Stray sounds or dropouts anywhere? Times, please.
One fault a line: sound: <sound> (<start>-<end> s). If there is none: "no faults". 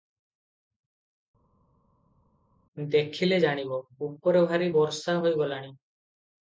no faults